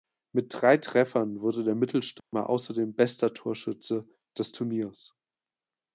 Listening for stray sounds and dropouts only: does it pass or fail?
fail